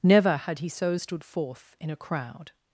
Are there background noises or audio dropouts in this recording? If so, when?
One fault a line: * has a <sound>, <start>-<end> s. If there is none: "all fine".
all fine